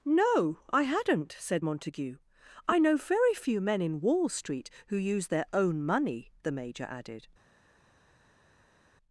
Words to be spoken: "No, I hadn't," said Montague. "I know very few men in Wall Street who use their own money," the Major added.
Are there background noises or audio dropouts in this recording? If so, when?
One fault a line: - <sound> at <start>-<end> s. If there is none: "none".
none